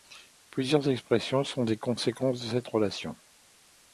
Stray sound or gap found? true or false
false